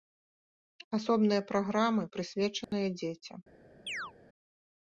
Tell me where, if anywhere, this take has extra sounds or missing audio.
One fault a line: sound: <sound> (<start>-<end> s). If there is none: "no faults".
sound: dropout (2.6-2.7 s)
sound: chirp (3.9-4.1 s)